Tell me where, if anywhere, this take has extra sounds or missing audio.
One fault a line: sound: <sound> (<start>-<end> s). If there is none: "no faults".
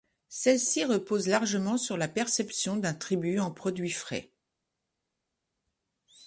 no faults